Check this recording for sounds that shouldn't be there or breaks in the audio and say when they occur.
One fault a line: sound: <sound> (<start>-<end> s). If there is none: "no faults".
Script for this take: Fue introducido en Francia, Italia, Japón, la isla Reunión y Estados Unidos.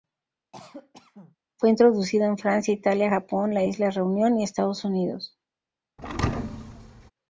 sound: cough (0.5-1.4 s)
sound: thud (6.0-7.1 s)